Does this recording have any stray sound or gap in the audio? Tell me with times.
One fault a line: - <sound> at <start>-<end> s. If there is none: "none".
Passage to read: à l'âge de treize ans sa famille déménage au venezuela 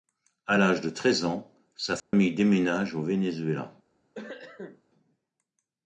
- dropout at 2.0-2.1 s
- cough at 4.1-4.8 s